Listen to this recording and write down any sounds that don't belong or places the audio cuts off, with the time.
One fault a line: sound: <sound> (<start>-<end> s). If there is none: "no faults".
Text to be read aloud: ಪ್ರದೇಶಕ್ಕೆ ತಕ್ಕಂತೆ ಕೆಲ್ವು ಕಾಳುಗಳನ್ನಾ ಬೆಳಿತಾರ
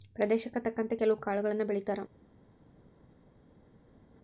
no faults